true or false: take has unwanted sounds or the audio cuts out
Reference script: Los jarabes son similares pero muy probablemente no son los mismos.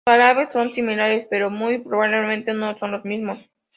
false